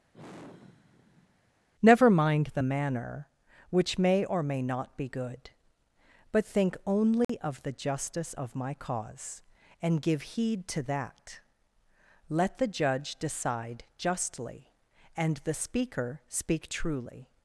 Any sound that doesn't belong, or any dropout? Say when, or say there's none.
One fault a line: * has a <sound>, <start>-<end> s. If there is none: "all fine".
* has a sigh, 0.1-1.5 s
* has a dropout, 7.2-7.3 s